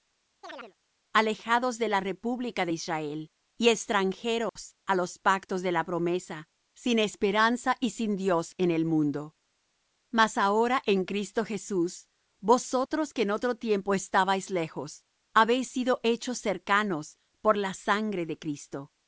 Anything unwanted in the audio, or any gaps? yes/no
yes